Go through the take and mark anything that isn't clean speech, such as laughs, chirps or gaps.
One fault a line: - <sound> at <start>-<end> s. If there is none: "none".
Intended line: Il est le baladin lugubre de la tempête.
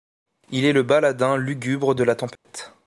- dropout at 2.4-2.4 s